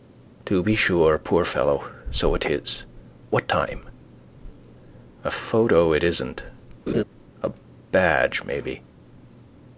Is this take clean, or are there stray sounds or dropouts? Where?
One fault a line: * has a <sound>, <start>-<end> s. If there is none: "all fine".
* has a laugh, 6.9-7.0 s